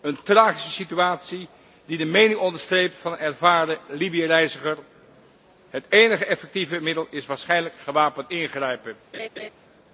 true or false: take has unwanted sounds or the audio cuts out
true